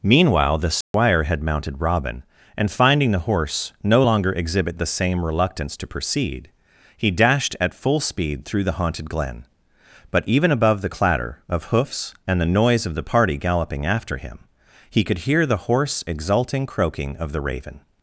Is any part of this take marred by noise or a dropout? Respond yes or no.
yes